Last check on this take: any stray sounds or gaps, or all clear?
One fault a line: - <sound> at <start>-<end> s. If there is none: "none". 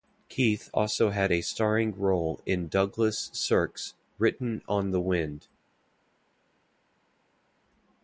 none